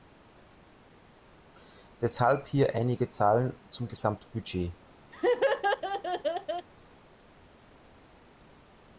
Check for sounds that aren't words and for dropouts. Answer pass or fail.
fail